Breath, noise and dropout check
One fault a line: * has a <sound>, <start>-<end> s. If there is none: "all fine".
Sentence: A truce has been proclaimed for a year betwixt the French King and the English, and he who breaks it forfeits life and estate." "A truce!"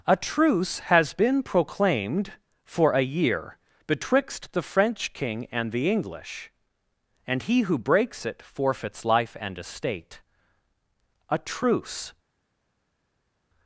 all fine